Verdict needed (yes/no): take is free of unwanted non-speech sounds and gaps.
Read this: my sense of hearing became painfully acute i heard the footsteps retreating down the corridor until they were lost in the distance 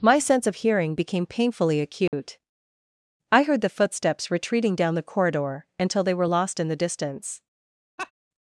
no